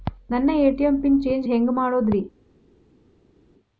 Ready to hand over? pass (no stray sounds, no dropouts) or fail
pass